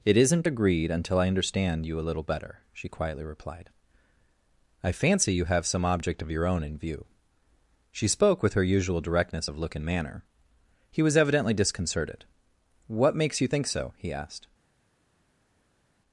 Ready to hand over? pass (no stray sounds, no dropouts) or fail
pass